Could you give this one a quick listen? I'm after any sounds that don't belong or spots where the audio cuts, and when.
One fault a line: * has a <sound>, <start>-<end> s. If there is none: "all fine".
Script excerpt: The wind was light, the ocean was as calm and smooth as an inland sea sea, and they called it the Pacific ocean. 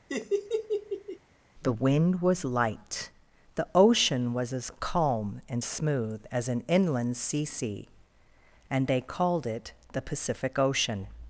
* has a laugh, 0.1-1.2 s